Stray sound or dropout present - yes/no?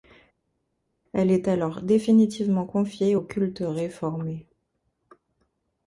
no